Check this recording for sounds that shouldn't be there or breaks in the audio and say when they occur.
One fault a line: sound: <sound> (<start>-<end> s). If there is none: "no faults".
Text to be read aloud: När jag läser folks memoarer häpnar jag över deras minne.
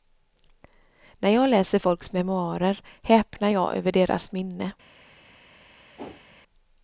sound: whoosh (6.0-6.3 s)